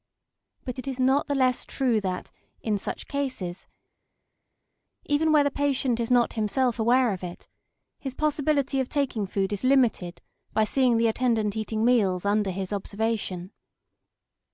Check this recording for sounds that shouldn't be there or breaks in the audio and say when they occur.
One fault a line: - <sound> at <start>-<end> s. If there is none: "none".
none